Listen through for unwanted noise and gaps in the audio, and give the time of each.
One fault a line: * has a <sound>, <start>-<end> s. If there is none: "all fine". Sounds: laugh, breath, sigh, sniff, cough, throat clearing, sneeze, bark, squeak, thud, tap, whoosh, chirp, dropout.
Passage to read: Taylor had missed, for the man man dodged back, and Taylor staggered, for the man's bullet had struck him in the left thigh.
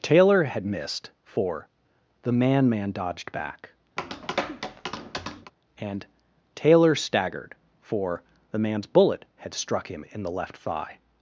* has a tap, 4.0-5.5 s